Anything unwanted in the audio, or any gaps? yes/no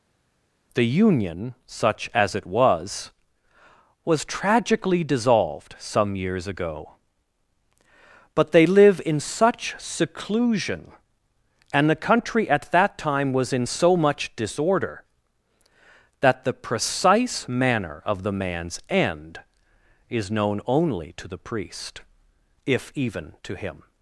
no